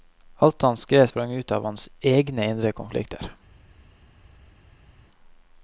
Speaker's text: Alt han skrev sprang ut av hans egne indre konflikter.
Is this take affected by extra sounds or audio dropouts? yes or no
no